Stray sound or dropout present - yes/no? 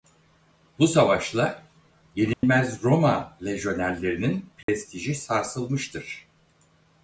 yes